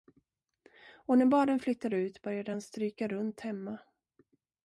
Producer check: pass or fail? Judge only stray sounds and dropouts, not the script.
pass